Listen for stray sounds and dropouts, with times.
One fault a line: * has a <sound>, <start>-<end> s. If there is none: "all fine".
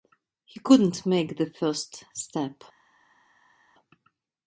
all fine